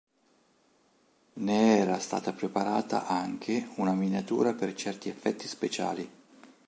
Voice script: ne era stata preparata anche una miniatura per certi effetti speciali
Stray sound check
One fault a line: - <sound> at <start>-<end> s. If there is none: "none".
none